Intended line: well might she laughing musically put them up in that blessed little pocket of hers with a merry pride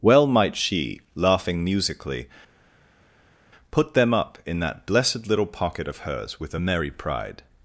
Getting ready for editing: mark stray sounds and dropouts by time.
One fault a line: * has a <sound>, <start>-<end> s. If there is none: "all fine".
all fine